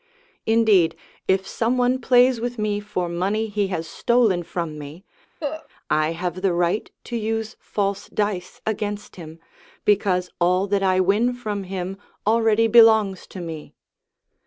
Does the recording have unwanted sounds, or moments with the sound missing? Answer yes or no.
yes